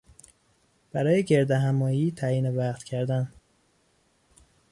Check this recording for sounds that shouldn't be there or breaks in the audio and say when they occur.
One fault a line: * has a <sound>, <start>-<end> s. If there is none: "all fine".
all fine